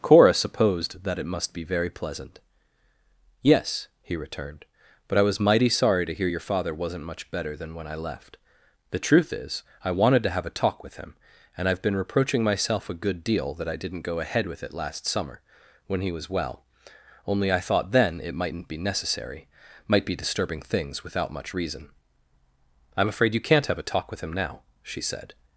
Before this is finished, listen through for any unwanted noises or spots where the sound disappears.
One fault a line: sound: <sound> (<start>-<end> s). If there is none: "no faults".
no faults